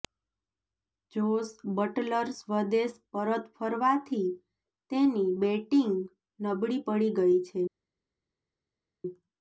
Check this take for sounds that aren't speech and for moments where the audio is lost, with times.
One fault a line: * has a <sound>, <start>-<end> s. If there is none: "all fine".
all fine